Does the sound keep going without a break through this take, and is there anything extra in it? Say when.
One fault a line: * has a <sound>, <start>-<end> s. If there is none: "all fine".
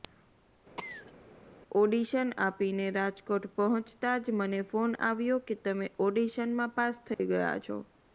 * has a cough, 0.8-1.1 s
* has a dropout, 7.1-7.2 s